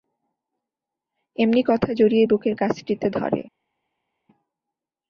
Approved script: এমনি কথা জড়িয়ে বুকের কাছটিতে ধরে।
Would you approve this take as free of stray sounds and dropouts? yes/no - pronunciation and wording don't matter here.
yes